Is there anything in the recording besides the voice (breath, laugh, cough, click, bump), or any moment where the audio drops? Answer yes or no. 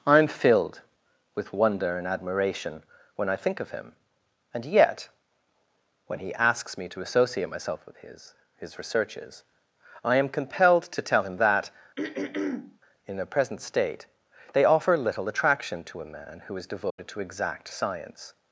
yes